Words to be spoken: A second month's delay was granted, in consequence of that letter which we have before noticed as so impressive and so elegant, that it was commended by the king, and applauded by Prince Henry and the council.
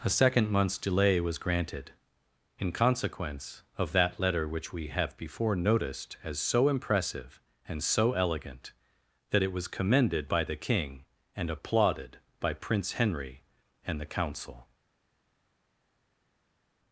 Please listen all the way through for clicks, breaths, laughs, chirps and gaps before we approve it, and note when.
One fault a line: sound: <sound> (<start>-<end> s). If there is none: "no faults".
no faults